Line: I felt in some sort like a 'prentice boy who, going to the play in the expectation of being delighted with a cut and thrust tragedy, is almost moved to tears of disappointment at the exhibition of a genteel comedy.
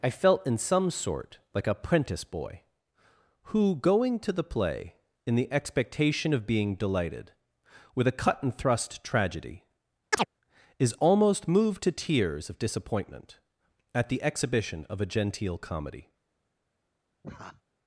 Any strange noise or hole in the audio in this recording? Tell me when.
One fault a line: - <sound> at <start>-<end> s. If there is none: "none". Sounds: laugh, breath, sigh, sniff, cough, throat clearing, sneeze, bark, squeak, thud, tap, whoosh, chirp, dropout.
- chirp at 10.1-10.3 s
- laugh at 17.2-17.6 s